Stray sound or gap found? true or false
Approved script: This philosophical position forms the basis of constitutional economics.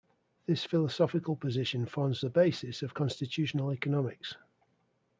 false